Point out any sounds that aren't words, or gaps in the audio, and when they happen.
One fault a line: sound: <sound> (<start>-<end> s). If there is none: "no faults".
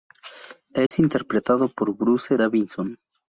sound: dropout (0.9-0.9 s)